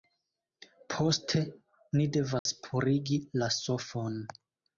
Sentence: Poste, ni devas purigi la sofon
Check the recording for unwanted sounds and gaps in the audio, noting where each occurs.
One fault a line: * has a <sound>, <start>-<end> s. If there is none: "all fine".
* has a dropout, 2.4-2.5 s